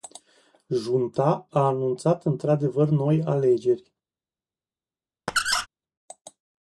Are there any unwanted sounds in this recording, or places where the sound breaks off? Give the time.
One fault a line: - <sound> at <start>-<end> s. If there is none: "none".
- squeak at 5.3-5.7 s